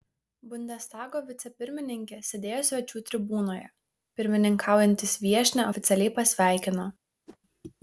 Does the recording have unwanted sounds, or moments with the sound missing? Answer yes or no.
yes